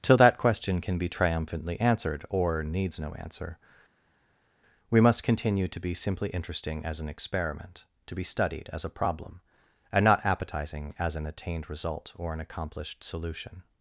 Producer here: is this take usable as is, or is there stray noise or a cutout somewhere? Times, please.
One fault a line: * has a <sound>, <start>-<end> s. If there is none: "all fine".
all fine